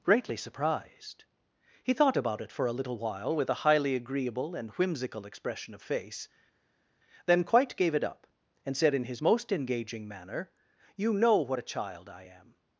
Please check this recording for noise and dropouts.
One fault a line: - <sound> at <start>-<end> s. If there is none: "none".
none